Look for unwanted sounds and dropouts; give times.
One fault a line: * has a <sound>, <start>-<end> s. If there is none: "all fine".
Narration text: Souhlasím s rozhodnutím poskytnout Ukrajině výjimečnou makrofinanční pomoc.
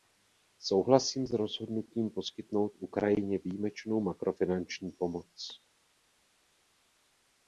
all fine